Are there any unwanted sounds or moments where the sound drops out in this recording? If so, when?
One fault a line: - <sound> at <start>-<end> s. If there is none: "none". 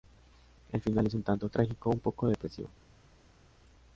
none